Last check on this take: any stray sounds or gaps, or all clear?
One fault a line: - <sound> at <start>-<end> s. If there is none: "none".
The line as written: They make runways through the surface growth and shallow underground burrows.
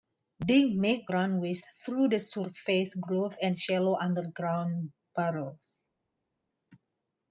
none